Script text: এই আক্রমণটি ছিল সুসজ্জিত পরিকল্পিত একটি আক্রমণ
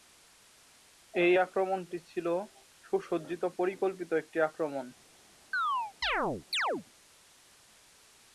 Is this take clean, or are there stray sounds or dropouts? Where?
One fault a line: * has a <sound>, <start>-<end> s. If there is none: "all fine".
* has a chirp, 5.5-6.8 s